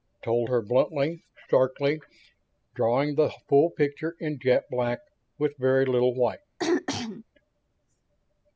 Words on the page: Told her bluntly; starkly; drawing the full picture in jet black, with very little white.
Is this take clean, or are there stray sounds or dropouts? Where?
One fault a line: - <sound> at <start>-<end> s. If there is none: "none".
- throat clearing at 6.6-7.2 s